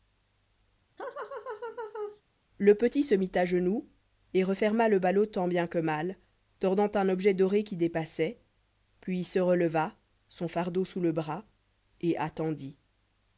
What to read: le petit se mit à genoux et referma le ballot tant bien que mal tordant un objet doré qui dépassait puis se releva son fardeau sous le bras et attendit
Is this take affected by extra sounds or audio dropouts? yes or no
yes